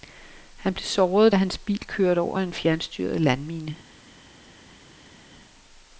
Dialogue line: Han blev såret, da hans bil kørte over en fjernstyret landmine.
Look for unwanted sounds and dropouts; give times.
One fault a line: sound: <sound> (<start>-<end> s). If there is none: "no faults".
no faults